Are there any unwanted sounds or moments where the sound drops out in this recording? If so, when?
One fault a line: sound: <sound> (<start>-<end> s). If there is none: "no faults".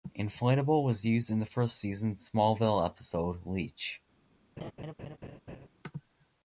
sound: laugh (4.6-5.7 s)